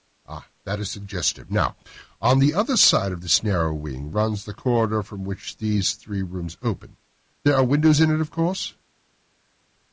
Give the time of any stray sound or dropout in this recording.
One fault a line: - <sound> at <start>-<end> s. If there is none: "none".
none